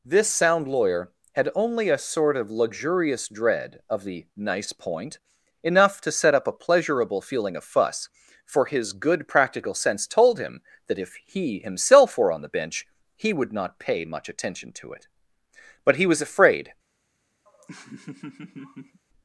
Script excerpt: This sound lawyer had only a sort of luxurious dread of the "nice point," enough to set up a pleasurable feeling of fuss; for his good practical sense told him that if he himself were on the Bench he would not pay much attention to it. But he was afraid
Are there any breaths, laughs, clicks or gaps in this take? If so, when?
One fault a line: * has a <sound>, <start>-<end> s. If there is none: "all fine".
* has a laugh, 17.5-19.0 s